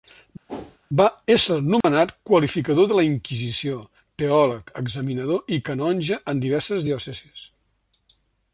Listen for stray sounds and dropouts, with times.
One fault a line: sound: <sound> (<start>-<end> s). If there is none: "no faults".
sound: whoosh (0.5-0.8 s)
sound: dropout (1.8-1.8 s)